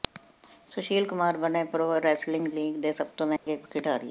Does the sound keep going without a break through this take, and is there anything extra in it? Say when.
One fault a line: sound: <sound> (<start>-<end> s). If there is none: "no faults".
sound: dropout (3.4-3.5 s)